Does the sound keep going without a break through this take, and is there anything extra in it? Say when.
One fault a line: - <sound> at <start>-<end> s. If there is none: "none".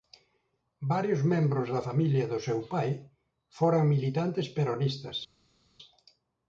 none